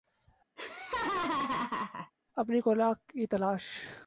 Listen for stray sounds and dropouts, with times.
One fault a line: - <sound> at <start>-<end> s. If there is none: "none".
- laugh at 0.6-2.1 s